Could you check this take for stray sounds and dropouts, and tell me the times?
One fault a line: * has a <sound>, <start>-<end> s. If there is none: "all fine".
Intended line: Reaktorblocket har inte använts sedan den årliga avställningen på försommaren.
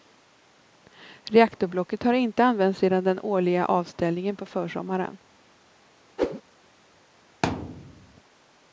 * has a whoosh, 6.2-6.4 s
* has a thud, 7.4-8.2 s